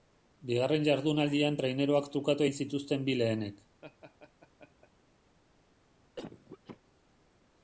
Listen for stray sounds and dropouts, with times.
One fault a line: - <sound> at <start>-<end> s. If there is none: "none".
- laugh at 3.8-4.9 s
- cough at 6.2-6.8 s